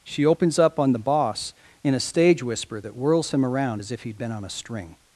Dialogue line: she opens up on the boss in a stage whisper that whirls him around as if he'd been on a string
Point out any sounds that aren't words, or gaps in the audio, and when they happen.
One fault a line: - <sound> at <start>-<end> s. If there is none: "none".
none